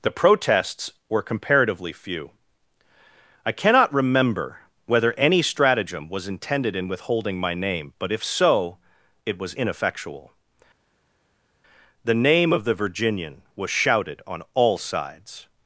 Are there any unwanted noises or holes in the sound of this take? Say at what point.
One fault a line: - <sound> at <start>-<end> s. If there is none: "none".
none